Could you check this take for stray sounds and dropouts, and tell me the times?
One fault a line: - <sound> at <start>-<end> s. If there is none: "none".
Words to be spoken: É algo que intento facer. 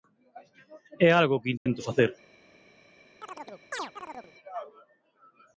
- dropout at 1.6-1.7 s
- chirp at 3.2-4.3 s